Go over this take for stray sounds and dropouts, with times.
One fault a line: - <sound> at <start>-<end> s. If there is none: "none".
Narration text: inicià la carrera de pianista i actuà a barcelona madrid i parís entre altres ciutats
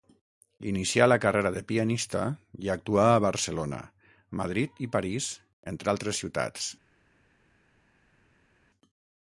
none